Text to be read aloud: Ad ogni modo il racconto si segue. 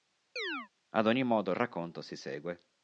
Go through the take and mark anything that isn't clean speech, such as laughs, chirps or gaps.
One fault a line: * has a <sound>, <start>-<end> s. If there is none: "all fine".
* has a chirp, 0.4-0.7 s